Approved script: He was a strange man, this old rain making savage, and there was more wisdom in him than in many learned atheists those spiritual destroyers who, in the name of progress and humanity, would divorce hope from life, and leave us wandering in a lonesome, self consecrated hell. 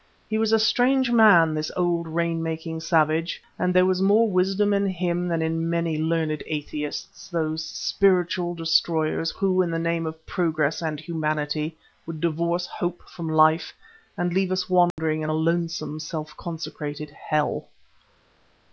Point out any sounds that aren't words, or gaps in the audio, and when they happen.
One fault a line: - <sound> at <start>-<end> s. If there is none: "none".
- dropout at 14.9-15.0 s